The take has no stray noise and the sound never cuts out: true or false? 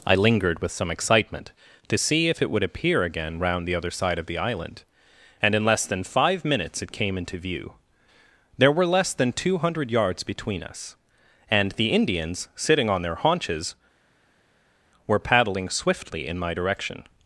true